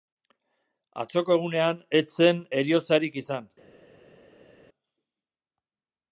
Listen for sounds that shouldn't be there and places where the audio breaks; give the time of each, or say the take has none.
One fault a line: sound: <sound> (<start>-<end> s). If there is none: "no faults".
no faults